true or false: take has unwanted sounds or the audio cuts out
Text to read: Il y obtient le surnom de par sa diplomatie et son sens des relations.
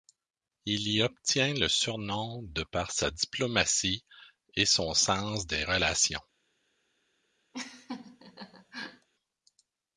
true